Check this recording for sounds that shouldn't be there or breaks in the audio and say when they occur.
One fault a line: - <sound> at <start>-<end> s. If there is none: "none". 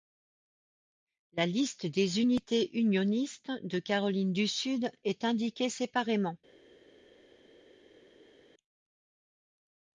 none